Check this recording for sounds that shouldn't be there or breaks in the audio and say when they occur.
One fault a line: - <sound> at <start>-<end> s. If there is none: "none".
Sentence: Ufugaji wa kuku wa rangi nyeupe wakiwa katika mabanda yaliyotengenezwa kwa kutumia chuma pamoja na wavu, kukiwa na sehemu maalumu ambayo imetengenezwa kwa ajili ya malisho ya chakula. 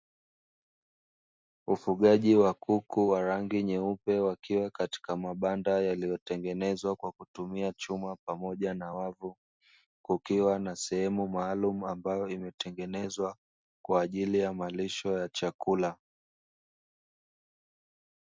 none